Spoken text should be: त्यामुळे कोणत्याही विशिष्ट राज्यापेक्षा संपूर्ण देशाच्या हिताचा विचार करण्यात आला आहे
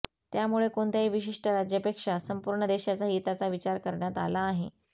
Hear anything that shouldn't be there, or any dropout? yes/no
no